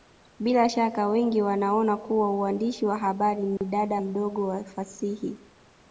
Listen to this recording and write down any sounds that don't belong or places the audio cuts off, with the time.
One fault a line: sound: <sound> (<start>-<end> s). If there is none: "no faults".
sound: dropout (3.6-3.6 s)